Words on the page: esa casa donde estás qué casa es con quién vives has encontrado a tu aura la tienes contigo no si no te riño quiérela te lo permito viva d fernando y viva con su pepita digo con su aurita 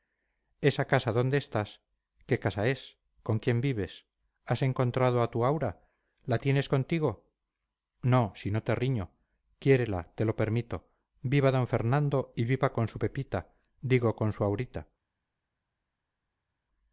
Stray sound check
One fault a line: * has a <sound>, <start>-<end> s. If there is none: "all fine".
all fine